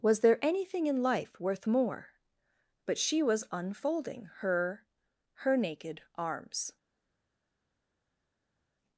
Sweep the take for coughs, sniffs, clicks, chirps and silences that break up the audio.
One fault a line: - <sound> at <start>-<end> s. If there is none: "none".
none